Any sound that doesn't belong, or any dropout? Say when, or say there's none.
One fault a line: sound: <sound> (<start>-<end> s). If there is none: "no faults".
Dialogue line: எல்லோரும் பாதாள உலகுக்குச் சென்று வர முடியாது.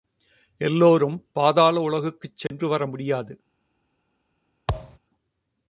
sound: dropout (2.5-2.5 s)
sound: thud (4.7-5.0 s)